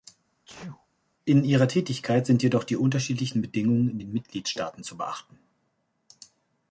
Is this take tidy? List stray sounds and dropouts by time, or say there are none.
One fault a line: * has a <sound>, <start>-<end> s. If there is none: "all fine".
* has a sneeze, 0.5-0.9 s